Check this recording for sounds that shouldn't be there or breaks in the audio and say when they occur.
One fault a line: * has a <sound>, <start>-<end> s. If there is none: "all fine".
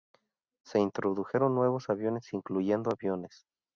all fine